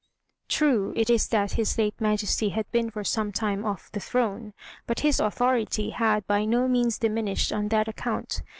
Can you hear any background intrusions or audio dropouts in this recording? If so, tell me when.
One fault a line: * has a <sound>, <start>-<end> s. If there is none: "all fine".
all fine